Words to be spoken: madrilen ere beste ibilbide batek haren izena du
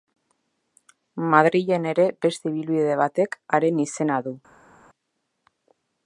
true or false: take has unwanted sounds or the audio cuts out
false